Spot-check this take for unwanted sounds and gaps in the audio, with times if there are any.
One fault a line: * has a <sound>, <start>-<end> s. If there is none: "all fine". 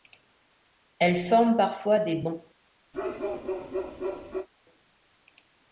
* has a bark, 2.9-4.5 s